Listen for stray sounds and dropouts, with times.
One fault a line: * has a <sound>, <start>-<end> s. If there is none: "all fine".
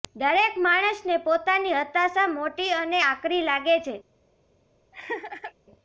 * has a laugh, 4.9-5.5 s